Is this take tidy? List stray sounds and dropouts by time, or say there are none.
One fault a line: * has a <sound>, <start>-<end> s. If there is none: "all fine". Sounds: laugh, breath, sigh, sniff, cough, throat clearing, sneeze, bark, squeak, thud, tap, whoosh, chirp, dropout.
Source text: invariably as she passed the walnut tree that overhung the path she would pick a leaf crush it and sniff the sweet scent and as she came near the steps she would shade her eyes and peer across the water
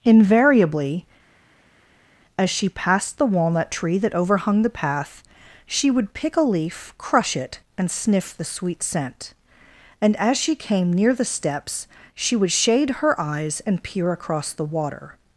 all fine